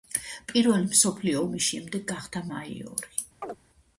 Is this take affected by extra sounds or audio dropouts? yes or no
yes